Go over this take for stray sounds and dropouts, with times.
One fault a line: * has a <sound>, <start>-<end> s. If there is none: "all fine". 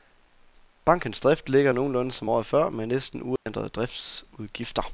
* has a dropout, 3.4-3.5 s